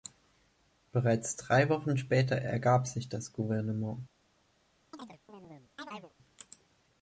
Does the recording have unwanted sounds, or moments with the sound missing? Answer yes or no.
yes